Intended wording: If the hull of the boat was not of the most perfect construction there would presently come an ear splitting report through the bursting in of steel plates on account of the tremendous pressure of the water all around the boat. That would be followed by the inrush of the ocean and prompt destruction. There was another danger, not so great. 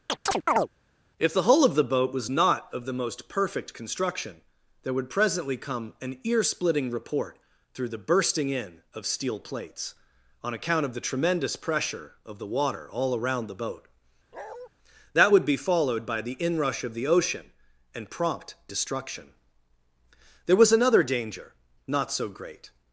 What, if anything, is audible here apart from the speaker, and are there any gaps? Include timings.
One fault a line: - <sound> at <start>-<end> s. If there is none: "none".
- chirp at 0.1-0.7 s
- bark at 14.3-14.7 s